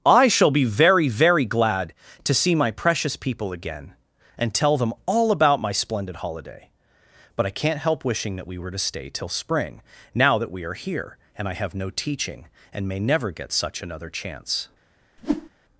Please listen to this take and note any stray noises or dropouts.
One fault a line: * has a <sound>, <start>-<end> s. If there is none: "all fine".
* has a whoosh, 15.2-15.5 s